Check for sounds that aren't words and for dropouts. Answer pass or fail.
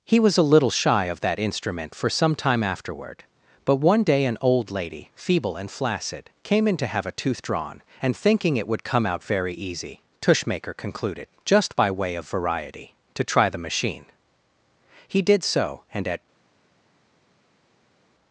pass